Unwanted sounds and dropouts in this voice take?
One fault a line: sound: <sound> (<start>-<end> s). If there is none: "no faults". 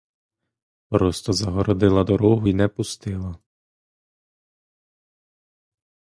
no faults